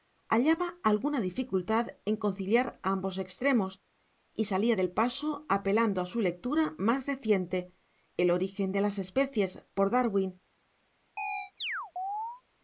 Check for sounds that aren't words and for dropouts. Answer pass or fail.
fail